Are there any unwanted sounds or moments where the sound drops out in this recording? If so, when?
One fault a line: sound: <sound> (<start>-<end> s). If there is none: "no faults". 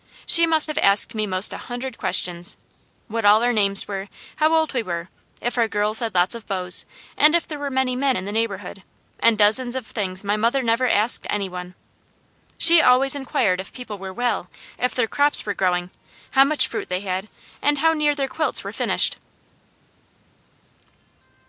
no faults